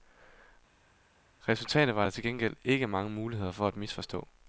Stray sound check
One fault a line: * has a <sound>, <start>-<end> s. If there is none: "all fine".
all fine